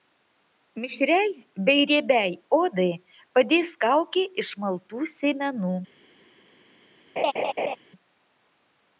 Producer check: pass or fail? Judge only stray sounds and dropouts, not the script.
fail